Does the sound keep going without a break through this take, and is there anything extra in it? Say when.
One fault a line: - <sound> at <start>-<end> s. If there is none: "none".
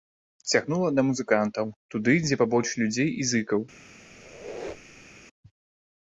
- squeak at 4.1-5.2 s